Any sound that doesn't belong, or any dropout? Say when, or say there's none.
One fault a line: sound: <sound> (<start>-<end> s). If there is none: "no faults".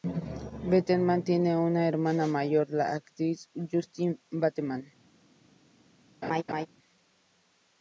sound: laugh (6.2-6.7 s)